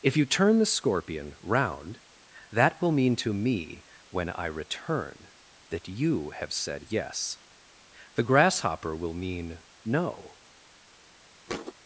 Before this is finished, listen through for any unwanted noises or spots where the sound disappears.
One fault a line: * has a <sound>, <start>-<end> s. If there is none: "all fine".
* has a thud, 11.5-11.7 s